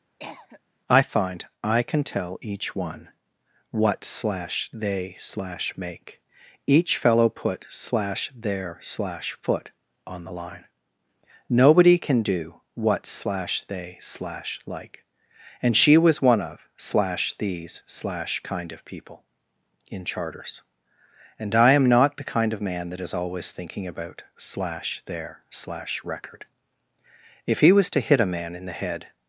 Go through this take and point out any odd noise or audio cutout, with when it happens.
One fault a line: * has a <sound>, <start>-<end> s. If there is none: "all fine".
* has a cough, 0.2-0.6 s